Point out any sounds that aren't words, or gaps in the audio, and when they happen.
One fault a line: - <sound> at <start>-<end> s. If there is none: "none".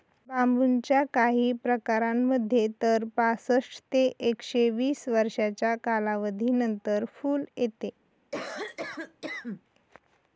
- cough at 8.3-9.6 s